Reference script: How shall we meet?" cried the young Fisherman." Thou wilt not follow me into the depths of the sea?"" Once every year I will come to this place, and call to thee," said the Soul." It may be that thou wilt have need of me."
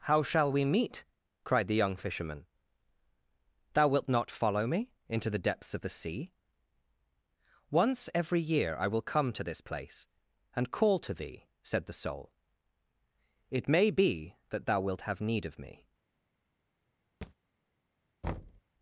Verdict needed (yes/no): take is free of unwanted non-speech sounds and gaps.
no